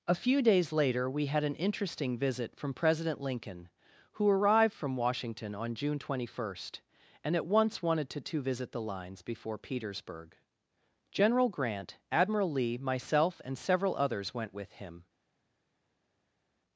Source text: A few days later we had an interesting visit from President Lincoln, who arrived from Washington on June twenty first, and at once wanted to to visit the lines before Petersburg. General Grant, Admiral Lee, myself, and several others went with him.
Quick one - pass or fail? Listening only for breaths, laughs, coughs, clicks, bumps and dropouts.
pass